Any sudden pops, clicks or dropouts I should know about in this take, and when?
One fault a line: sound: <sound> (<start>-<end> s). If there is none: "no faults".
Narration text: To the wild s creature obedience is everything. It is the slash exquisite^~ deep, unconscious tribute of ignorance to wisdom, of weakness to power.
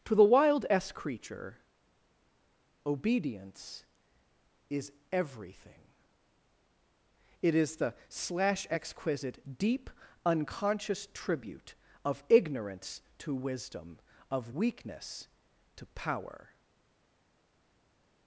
no faults